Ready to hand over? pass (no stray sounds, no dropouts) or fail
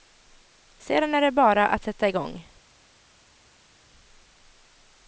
pass